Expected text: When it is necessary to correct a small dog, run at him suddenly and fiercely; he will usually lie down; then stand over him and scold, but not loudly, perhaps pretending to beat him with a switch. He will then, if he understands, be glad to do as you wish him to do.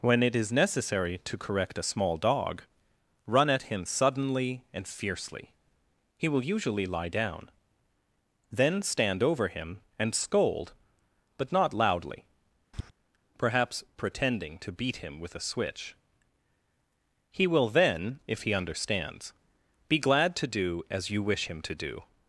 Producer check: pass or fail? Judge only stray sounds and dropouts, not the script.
fail